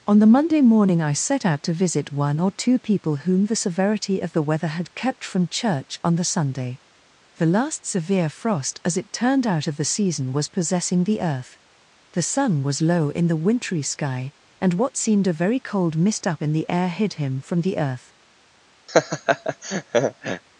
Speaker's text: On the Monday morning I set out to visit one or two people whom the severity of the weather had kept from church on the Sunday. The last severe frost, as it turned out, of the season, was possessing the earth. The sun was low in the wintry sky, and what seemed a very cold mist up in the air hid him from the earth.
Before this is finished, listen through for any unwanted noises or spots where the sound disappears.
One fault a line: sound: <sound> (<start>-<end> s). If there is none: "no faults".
sound: laugh (18.9-20.4 s)